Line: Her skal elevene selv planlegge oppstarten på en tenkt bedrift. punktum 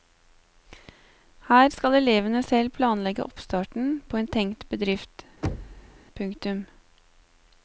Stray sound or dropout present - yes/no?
yes